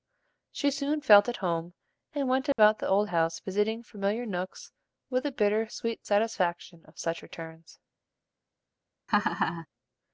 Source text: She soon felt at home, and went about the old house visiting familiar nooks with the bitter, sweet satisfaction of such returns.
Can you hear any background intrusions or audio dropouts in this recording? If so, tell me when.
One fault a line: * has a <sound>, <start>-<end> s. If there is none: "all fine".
* has a dropout, 2.5-2.6 s
* has a laugh, 9.1-9.7 s